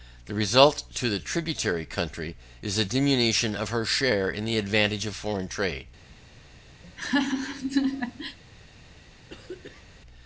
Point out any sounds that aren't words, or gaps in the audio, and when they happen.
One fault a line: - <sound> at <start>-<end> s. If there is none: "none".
- laugh at 6.8-8.4 s
- throat clearing at 9.3-9.9 s